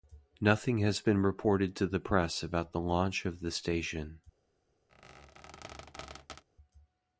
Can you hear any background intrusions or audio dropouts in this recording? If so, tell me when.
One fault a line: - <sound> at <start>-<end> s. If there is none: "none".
- squeak at 4.9-6.4 s